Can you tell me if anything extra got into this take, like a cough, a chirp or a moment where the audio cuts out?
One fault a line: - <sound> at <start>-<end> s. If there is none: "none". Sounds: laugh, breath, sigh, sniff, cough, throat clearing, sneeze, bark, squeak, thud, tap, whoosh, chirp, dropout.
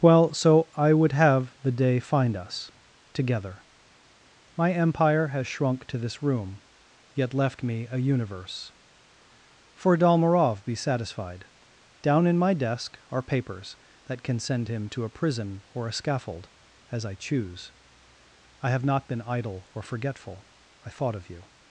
none